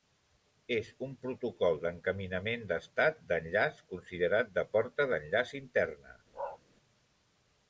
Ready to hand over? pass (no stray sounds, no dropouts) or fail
fail